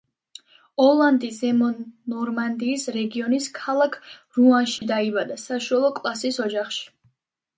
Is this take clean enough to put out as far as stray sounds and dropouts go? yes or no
no